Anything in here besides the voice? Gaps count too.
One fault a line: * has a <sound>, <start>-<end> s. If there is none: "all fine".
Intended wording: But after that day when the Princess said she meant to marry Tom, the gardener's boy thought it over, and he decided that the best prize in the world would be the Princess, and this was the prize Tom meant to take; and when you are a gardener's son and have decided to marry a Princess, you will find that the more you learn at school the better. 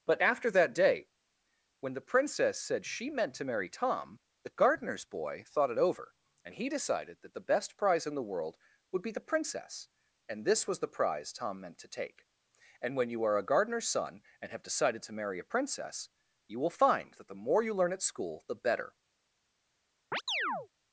* has a chirp, 20.1-20.7 s